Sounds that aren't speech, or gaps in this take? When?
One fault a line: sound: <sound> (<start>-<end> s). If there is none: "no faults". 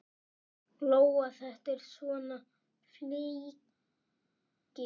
no faults